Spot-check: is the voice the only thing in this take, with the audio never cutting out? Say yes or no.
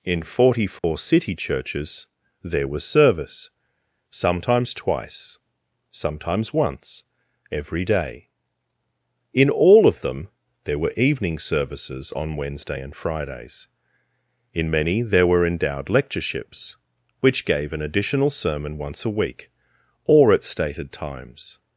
no